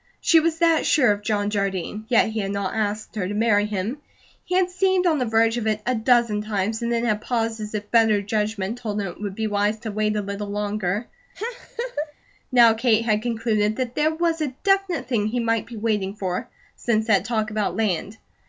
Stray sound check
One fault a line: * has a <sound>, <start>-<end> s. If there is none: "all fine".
* has a laugh, 11.3-12.1 s